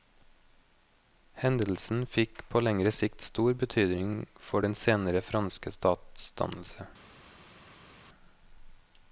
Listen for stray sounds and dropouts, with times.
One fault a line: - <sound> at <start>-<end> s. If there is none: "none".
none